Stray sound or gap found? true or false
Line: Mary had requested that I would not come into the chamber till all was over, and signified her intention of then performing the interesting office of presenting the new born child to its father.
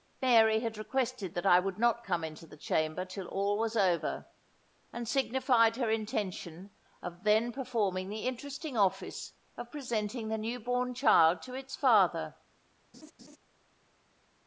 true